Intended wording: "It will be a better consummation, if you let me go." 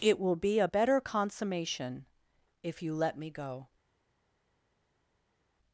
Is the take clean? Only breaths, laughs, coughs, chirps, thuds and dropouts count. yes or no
yes